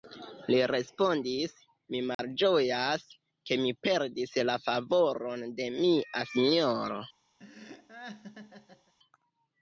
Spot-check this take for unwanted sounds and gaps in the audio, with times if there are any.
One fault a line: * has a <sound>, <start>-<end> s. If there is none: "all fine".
* has a dropout, 2.1-2.2 s
* has a laugh, 7.4-8.9 s